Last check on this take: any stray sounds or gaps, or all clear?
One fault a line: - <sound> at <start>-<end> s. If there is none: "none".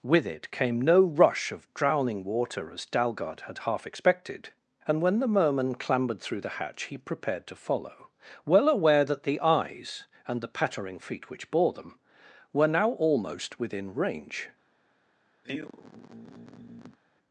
- sigh at 15.4-17.0 s